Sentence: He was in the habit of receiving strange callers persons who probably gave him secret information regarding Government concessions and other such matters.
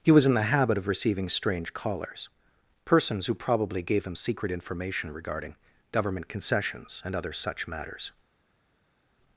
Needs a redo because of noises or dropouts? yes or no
no